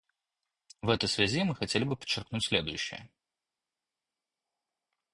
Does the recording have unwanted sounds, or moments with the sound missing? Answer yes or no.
no